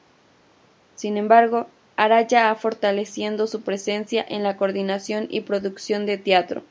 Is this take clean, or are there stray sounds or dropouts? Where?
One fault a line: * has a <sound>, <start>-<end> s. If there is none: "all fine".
all fine